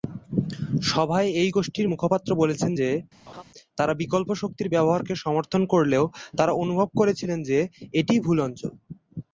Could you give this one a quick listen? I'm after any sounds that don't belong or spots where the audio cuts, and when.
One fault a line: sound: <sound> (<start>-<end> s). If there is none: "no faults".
sound: laugh (3.3-3.4 s)